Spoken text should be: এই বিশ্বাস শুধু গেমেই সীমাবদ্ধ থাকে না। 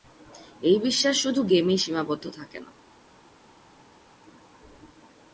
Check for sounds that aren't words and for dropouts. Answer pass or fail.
pass